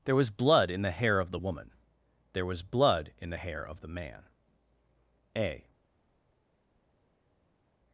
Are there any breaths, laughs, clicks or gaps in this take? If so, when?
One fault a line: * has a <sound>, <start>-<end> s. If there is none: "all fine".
all fine